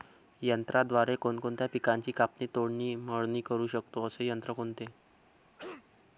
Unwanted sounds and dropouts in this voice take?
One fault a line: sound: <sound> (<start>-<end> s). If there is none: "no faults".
sound: cough (5.6-5.8 s)